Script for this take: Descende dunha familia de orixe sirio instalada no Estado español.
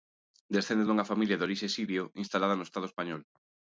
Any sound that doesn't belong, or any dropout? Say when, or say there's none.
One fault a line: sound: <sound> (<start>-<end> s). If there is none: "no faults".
no faults